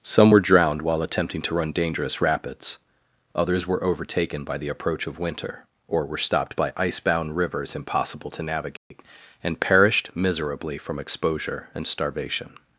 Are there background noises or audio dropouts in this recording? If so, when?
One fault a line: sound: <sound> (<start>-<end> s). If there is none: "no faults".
sound: dropout (8.8-8.9 s)